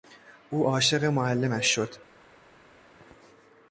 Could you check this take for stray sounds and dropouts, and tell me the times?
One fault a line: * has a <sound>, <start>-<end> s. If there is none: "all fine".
all fine